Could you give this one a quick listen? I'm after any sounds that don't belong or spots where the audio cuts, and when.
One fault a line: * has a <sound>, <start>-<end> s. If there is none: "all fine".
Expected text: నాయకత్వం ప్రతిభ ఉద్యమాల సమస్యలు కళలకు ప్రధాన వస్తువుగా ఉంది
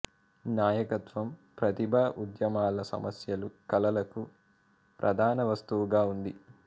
all fine